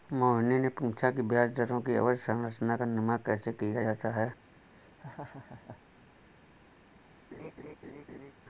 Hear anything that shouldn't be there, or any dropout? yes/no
yes